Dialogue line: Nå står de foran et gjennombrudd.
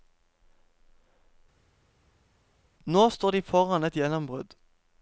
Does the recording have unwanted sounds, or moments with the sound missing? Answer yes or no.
no